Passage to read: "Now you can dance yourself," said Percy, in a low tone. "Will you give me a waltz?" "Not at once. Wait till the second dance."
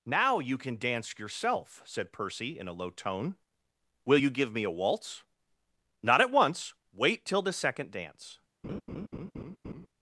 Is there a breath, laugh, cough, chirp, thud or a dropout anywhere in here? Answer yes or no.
yes